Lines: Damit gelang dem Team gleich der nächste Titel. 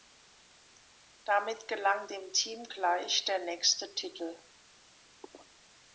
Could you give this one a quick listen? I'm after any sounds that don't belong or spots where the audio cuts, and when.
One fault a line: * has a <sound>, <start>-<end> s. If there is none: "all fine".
all fine